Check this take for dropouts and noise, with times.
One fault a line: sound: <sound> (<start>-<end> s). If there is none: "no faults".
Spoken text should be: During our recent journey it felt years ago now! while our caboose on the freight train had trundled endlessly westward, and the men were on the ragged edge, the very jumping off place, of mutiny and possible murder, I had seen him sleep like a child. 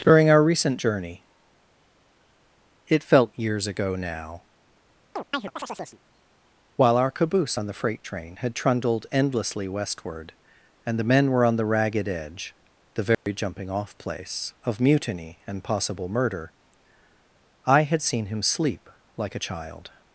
sound: chirp (5.2-6.0 s)
sound: dropout (13.1-13.3 s)